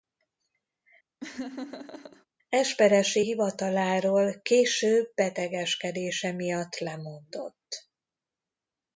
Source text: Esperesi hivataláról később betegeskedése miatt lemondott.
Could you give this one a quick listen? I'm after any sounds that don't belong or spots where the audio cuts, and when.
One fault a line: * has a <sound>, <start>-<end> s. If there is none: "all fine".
* has a laugh, 1.2-2.3 s